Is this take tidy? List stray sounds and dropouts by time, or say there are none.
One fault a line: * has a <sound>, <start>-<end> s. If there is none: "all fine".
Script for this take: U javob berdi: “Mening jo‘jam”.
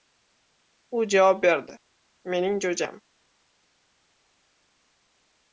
all fine